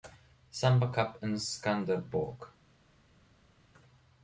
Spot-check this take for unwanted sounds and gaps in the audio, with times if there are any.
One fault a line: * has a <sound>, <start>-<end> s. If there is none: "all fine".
all fine